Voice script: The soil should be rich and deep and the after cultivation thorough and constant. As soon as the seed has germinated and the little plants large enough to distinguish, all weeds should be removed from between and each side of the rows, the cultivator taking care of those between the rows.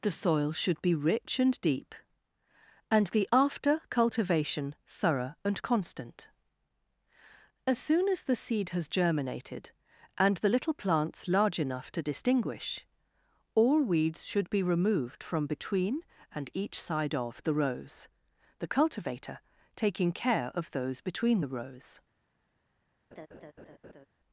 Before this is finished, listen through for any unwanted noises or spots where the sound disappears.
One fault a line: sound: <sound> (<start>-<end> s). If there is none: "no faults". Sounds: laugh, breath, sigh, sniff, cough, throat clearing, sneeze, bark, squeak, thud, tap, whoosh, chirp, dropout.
sound: laugh (23.1-24.1 s)